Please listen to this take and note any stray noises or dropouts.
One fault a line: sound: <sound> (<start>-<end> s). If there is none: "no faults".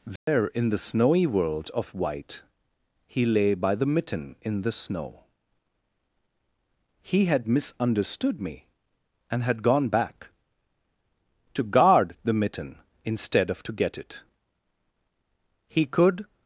sound: dropout (0.2-0.3 s)